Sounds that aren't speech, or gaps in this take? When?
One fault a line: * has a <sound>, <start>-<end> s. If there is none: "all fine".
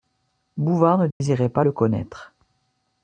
* has a dropout, 1.1-1.2 s